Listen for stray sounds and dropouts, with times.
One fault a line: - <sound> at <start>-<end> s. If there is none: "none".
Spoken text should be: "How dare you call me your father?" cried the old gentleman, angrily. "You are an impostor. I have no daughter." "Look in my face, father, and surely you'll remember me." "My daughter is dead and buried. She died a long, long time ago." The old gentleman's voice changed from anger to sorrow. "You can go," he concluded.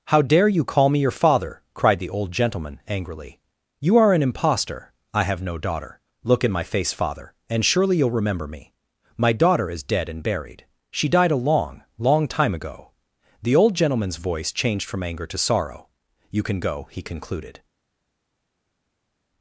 none